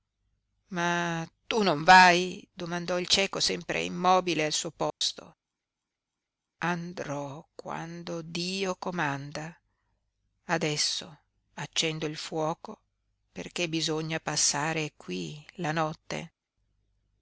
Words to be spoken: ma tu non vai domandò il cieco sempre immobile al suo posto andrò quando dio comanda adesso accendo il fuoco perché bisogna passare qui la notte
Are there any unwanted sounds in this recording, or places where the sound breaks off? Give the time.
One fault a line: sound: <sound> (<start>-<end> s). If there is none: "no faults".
sound: dropout (4.9-5.0 s)